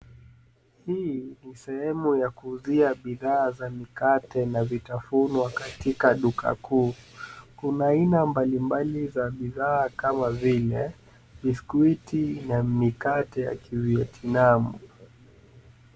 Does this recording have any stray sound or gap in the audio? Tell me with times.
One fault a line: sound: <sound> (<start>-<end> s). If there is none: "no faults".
no faults